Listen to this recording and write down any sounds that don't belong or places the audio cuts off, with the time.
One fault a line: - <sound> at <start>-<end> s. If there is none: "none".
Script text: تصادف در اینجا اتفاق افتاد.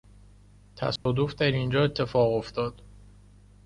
- dropout at 1.0-1.1 s